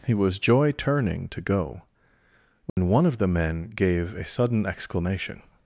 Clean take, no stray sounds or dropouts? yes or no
no